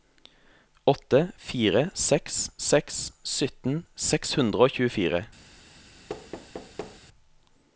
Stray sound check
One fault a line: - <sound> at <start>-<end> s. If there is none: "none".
- thud at 6.1-7.0 s